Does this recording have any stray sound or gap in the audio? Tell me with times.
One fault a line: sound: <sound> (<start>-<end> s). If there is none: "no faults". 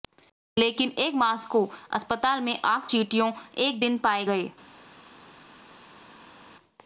no faults